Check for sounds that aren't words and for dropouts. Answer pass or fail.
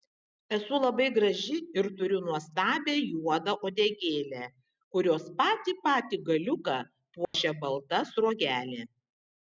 fail